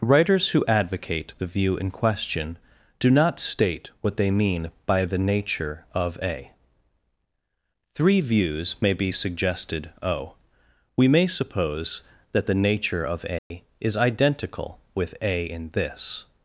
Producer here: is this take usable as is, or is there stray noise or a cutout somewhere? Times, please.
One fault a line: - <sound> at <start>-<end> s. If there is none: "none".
- dropout at 13.4-13.5 s